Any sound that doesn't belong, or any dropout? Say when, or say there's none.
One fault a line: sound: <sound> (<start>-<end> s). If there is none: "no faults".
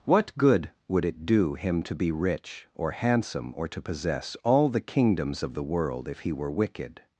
no faults